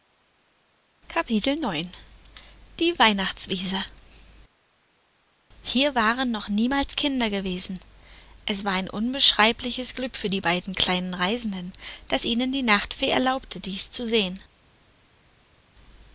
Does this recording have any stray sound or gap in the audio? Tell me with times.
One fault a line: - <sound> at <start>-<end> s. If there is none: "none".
none